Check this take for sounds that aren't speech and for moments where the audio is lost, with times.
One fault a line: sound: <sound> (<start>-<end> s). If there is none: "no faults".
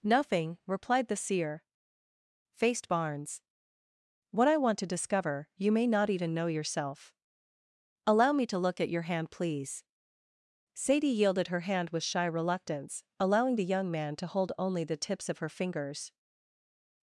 no faults